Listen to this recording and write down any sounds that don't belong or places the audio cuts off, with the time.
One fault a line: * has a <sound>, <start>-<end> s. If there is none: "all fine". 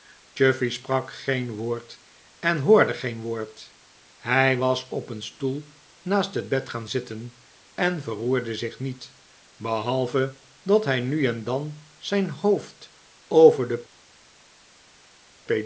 all fine